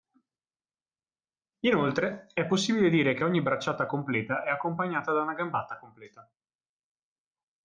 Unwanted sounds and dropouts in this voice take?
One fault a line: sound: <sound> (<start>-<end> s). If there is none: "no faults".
no faults